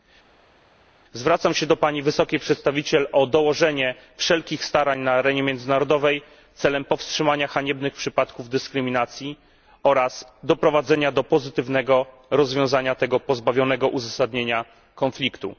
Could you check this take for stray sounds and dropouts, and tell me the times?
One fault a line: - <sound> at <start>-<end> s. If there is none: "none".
none